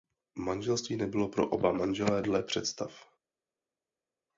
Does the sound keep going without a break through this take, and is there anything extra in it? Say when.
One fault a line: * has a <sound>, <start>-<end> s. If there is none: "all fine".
all fine